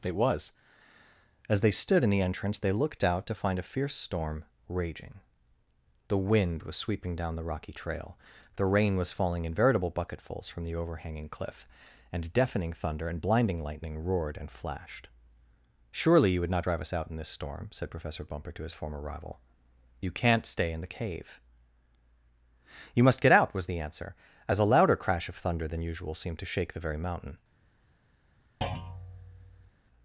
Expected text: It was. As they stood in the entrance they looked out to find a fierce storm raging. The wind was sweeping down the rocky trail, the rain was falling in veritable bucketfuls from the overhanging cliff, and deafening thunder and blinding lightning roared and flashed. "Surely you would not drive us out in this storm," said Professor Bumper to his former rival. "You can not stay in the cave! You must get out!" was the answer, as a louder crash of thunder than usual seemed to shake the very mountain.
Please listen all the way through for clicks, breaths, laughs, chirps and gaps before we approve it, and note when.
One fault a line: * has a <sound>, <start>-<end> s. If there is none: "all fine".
* has a thud, 28.6-29.7 s